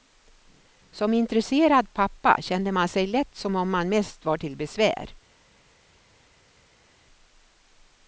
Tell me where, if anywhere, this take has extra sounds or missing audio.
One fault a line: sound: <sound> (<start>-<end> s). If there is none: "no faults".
no faults